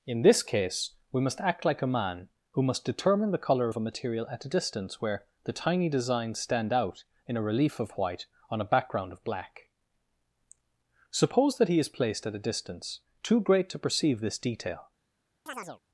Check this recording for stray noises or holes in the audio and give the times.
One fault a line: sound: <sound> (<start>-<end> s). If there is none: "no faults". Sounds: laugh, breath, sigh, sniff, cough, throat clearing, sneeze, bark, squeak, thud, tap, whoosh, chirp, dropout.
sound: chirp (15.5-15.8 s)